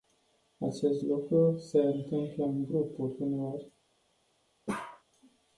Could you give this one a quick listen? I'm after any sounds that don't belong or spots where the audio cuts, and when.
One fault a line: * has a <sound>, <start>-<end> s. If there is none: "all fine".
* has a bark, 4.7-5.0 s